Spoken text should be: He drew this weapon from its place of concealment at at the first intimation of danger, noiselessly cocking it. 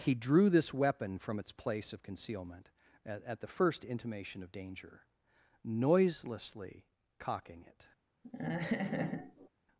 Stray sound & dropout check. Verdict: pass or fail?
fail